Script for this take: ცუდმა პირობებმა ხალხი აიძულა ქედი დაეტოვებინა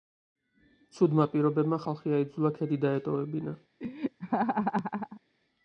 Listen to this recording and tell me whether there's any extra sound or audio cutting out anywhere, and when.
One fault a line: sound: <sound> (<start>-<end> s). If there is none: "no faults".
sound: laugh (3.8-5.2 s)